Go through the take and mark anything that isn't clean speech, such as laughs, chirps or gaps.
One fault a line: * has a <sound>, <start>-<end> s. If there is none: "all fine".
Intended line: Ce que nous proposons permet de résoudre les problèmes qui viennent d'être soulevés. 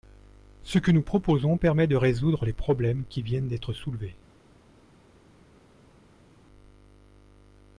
all fine